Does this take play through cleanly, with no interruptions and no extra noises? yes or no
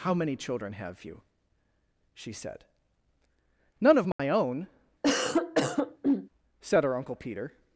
no